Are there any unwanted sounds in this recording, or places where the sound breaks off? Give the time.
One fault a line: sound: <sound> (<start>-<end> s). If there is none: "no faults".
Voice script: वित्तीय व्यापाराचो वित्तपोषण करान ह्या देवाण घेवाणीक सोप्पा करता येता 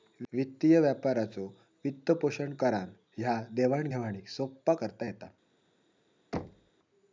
sound: thud (6.3-6.7 s)